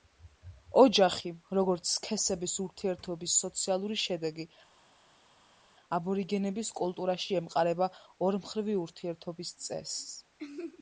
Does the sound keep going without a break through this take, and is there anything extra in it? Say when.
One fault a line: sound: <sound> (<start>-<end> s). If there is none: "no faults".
no faults